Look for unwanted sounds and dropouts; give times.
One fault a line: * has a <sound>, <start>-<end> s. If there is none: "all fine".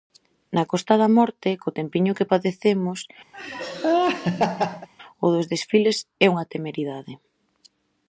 * has a laugh, 3.3-4.9 s